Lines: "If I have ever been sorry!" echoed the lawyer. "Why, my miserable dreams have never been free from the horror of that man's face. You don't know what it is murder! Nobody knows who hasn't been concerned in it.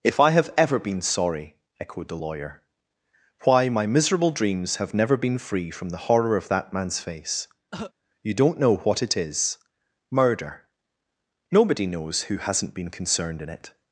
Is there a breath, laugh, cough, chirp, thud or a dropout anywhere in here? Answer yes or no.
yes